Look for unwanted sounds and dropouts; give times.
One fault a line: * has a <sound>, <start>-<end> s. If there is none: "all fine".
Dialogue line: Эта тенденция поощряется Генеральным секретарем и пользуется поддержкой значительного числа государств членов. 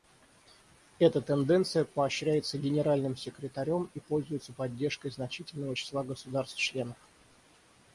all fine